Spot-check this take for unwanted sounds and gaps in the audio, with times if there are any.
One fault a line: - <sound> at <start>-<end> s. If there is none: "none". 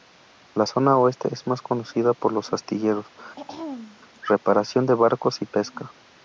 - throat clearing at 3.4-4.0 s